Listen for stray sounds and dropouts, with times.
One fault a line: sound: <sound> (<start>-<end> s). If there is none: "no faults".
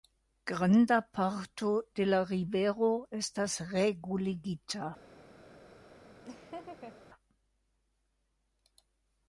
sound: laugh (6.2-7.0 s)